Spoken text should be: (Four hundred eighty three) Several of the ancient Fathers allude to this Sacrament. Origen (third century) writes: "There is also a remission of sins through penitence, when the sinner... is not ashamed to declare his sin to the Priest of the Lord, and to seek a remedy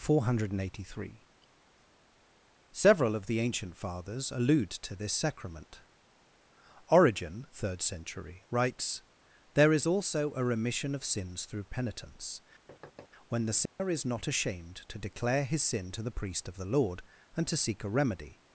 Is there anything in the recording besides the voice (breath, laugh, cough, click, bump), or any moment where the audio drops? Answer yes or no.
yes